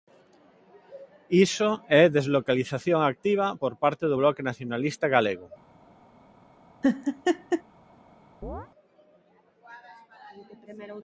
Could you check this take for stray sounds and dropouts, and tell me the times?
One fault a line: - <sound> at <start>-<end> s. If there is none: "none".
- laugh at 6.8-7.6 s
- chirp at 8.4-8.7 s